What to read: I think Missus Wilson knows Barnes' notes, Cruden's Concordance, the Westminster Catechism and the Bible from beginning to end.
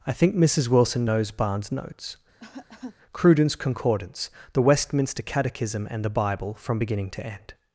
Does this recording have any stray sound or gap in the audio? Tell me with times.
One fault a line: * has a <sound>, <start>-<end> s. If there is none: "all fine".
* has a cough, 2.4-3.0 s